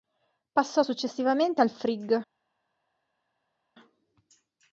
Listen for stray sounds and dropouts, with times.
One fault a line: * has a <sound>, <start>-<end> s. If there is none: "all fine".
all fine